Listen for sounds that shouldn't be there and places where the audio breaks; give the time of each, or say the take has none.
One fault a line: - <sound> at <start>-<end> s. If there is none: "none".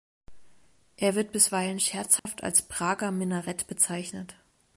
- dropout at 2.2-2.3 s